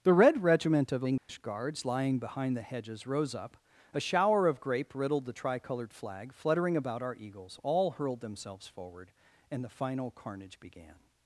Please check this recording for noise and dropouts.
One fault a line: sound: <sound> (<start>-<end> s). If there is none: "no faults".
sound: dropout (1.2-1.3 s)